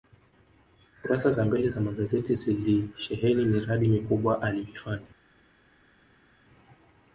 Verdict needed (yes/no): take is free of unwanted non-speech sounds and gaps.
yes